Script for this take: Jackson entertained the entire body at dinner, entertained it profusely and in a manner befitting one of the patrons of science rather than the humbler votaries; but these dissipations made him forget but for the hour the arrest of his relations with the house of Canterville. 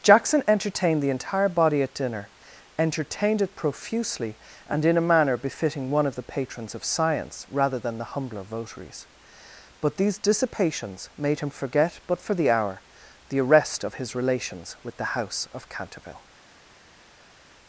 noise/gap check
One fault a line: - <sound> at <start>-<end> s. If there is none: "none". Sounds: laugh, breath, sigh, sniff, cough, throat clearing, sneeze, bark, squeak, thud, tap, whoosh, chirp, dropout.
none